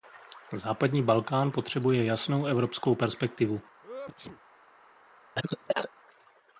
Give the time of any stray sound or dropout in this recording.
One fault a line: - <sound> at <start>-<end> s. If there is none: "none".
- sneeze at 3.8-4.4 s
- cough at 5.4-5.9 s